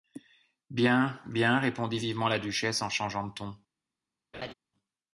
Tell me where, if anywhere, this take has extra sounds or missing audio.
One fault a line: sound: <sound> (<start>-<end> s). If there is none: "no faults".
sound: laugh (4.3-4.5 s)